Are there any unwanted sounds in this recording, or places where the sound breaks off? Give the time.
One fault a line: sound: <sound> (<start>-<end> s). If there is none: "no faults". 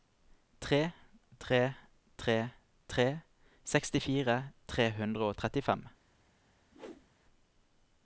sound: whoosh (6.7-7.1 s)